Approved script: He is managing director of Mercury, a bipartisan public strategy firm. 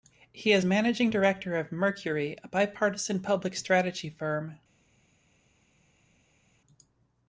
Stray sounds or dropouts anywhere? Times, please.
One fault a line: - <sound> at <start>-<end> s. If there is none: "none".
none